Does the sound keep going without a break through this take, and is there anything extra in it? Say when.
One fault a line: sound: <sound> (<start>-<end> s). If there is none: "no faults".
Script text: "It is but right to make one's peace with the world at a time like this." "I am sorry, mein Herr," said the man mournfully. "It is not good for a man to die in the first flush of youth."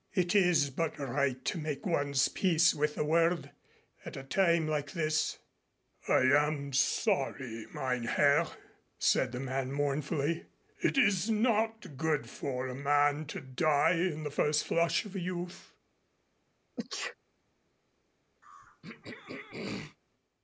sound: sneeze (16.8-17.2 s)
sound: throat clearing (18.4-20.0 s)